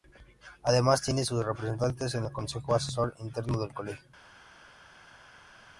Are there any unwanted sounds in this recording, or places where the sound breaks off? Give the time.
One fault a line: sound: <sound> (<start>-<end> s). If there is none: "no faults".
no faults